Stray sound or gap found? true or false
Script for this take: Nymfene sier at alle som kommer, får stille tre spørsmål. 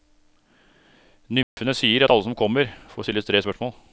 true